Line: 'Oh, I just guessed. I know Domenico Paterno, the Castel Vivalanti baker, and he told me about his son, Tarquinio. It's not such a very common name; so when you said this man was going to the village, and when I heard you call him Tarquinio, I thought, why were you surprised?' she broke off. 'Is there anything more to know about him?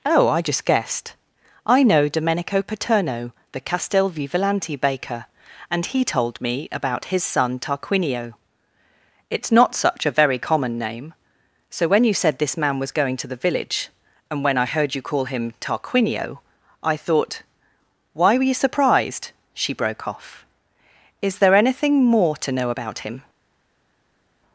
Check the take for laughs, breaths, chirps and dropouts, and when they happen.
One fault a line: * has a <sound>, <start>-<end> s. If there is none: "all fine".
all fine